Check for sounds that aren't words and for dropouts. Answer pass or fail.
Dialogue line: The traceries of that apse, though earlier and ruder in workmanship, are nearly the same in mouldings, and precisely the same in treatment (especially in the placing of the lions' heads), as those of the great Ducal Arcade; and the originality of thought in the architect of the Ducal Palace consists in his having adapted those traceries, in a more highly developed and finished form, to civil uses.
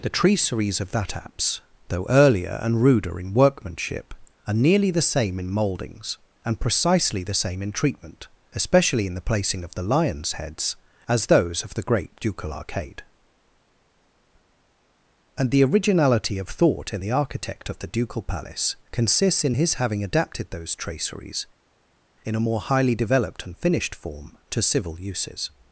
pass